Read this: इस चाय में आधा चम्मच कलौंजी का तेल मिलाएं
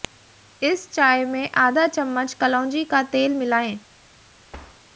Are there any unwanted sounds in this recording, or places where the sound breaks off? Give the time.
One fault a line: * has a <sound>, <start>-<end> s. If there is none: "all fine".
* has a thud, 4.5-4.8 s